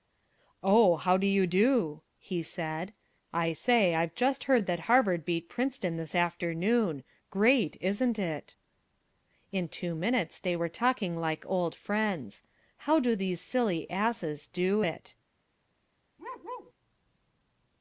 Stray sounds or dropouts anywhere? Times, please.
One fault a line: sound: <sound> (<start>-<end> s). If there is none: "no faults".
sound: bark (16.2-16.7 s)